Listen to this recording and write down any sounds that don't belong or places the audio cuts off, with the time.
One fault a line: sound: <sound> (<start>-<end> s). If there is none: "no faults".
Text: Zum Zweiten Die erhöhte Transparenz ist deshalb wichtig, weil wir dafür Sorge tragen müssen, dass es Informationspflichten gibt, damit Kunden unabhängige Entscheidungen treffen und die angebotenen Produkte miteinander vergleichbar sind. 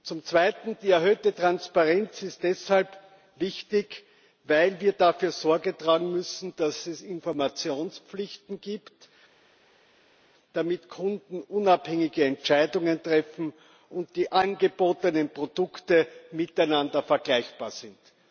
no faults